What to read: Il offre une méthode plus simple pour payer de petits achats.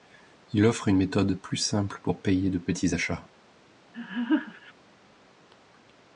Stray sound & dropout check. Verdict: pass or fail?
fail